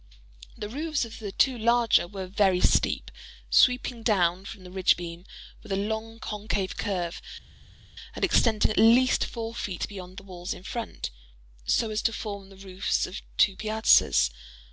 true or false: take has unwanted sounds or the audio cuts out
false